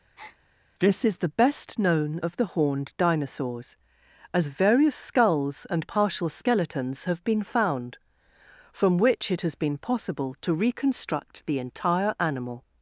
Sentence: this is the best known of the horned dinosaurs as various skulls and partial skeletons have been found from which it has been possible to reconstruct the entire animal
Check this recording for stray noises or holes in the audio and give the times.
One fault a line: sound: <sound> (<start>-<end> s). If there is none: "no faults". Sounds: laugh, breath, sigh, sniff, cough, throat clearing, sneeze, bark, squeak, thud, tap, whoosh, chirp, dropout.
sound: breath (0.2-0.4 s)